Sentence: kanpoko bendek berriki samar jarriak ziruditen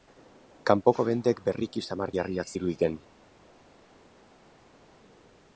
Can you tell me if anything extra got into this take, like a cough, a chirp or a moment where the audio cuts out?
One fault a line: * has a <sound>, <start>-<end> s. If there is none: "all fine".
all fine